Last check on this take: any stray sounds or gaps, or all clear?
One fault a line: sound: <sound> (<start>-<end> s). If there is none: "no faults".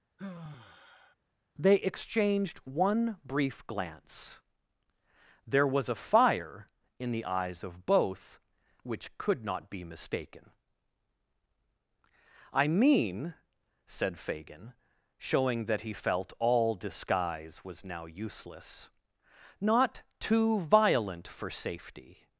sound: sigh (0.2-1.2 s)